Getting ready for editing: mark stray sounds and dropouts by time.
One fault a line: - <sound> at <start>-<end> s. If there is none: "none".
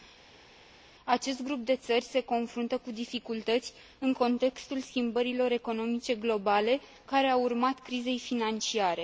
none